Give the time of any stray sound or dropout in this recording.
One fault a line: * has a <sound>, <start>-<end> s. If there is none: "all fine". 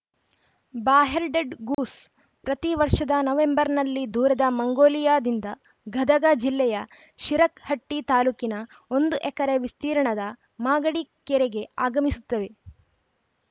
* has a dropout, 1.7-1.8 s